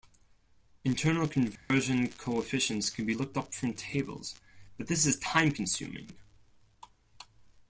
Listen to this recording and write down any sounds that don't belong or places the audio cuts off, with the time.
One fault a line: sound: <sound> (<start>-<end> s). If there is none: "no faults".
sound: dropout (1.6-1.7 s)